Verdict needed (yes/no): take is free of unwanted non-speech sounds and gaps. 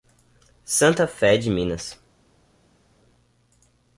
yes